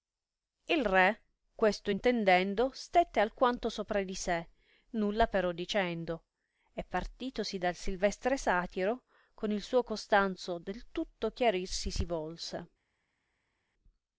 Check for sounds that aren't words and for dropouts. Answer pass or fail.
pass